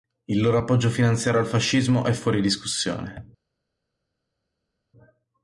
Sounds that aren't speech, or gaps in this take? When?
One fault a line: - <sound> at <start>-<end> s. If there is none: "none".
none